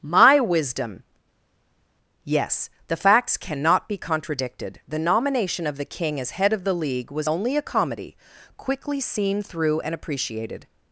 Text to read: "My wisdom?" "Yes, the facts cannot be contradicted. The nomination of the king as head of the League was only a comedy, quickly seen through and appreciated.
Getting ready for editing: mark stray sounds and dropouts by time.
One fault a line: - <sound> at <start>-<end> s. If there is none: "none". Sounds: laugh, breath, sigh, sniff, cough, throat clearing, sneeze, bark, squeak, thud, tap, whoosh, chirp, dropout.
none